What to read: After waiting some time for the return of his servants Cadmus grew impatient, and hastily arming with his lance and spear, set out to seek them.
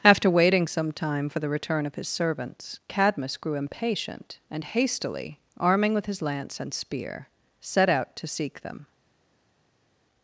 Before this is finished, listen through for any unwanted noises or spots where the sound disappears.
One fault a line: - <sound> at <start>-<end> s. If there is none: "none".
none